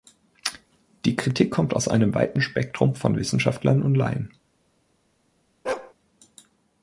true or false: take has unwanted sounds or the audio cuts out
true